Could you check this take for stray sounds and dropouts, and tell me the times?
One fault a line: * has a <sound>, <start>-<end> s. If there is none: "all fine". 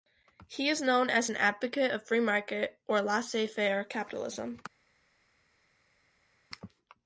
all fine